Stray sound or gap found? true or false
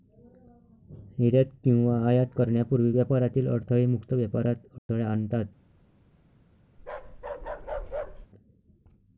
true